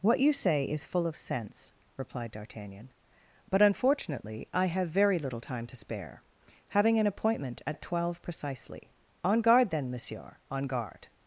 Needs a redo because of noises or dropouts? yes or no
no